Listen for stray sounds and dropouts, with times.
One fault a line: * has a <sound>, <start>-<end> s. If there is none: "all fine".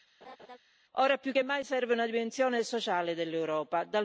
* has a laugh, 0.2-0.6 s